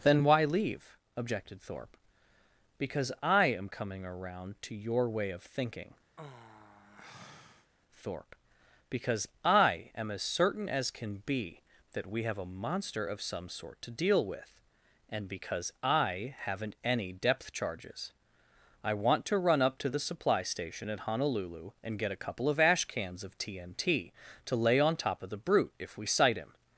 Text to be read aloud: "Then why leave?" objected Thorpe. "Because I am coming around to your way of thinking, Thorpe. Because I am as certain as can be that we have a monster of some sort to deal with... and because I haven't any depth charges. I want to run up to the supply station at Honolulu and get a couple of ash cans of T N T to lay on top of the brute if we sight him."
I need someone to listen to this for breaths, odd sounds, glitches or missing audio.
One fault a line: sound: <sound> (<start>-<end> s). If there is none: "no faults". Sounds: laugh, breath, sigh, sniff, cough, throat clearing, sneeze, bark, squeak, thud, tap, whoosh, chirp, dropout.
sound: sigh (6.2-7.7 s)